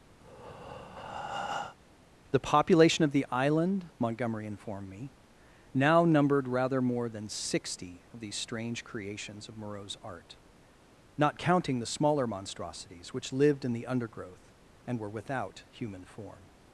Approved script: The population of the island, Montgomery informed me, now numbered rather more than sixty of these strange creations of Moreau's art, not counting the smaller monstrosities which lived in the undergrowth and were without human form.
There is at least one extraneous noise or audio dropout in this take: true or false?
true